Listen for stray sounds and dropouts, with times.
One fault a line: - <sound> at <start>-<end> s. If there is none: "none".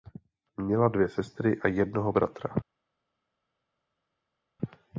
none